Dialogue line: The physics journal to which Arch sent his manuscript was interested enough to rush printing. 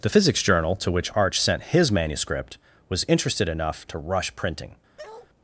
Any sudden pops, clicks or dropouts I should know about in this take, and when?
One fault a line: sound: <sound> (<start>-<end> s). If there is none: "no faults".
sound: bark (5.0-5.3 s)